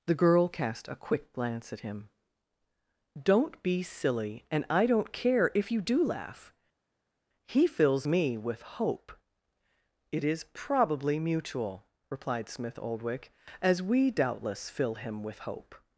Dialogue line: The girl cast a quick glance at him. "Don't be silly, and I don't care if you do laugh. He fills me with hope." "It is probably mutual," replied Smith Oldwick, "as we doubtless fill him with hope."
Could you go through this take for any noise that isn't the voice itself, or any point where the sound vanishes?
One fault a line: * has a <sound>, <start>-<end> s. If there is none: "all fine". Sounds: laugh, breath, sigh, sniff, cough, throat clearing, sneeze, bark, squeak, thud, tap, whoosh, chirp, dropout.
all fine